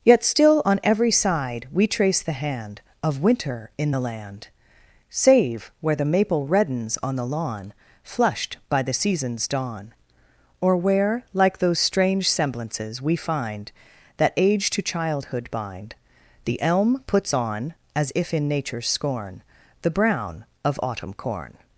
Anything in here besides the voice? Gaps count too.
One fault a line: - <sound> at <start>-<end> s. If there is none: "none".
none